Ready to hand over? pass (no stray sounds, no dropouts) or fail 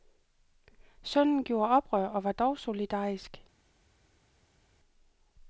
pass